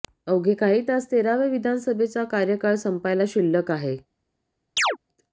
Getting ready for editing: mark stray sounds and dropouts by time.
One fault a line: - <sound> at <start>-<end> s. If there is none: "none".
- chirp at 4.8-5.0 s